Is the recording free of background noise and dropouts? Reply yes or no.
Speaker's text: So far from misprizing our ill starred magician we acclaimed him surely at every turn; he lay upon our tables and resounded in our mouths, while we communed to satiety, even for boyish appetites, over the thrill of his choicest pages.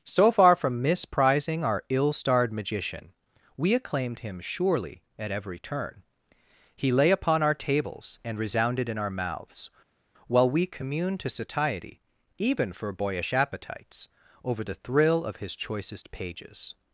yes